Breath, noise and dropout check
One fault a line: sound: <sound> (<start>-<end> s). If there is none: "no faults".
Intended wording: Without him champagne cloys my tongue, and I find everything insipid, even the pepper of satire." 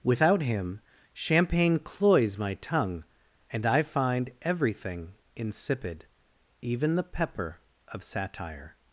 no faults